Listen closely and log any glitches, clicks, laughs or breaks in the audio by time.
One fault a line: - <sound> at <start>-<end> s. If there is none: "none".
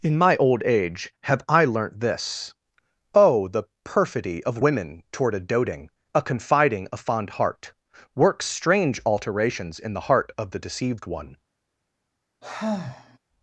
- sigh at 12.4-13.2 s